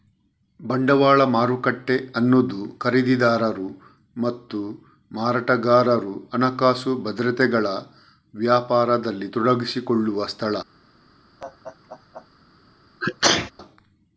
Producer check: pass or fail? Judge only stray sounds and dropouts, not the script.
fail